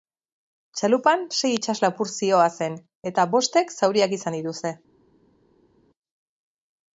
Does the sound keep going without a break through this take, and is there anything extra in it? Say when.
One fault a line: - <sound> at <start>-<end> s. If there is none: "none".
none